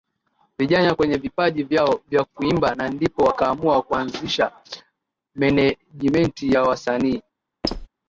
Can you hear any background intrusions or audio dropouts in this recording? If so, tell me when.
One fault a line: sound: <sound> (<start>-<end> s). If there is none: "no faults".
sound: squeak (7.6-7.9 s)